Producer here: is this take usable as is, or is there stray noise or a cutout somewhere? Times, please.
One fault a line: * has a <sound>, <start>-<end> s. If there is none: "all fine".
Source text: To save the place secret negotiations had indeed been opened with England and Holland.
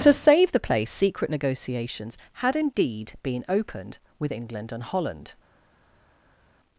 all fine